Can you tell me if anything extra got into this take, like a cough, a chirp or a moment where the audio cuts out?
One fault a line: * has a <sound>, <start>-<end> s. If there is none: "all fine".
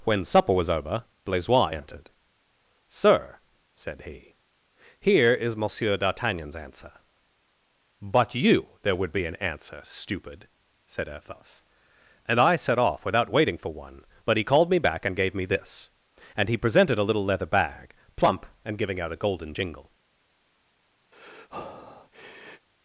* has a breath, 21.1-22.7 s